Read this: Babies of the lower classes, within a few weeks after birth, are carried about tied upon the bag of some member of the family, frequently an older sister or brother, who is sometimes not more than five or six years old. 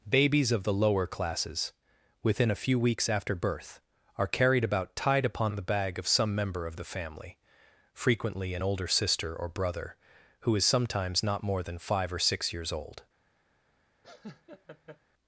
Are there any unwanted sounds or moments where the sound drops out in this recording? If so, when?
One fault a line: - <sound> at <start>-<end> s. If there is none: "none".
- laugh at 14.0-15.0 s